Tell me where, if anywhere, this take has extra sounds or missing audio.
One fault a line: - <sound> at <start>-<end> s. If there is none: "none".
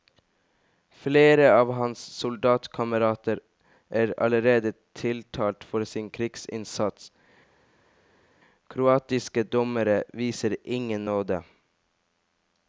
none